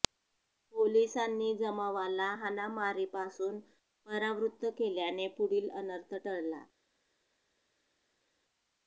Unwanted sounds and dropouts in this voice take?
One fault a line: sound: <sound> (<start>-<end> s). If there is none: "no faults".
no faults